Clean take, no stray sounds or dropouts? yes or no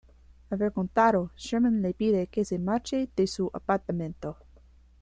yes